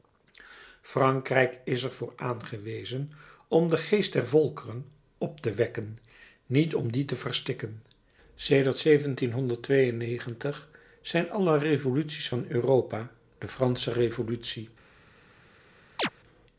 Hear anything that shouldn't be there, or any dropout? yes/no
yes